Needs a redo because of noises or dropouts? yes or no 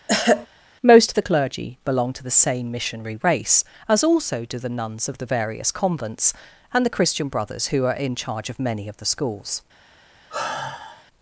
yes